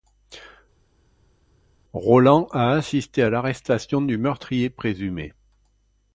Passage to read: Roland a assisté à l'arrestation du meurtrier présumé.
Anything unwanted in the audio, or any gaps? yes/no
no